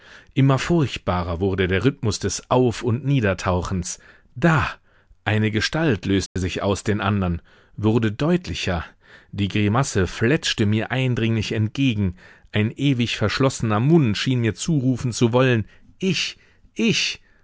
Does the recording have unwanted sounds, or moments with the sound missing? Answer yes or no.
yes